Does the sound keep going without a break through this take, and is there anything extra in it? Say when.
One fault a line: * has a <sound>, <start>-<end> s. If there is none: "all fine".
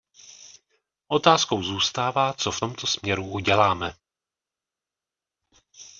all fine